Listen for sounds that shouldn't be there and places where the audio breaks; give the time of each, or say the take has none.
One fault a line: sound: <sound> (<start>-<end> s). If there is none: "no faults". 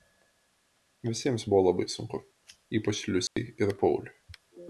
sound: dropout (3.3-3.4 s)